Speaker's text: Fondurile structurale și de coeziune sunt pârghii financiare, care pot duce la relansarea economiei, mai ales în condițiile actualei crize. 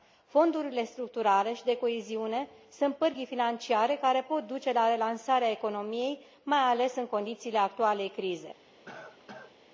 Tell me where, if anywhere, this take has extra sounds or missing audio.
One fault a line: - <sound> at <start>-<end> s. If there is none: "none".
- cough at 8.8-9.5 s